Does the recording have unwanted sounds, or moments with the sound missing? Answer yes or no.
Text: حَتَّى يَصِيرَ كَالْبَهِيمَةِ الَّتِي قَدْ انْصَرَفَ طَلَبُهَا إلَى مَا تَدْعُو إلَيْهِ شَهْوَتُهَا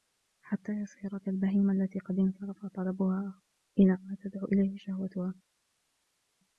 no